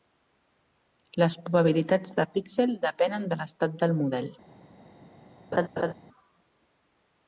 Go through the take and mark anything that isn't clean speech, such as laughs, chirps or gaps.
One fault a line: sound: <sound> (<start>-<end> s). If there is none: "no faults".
sound: laugh (5.5-5.9 s)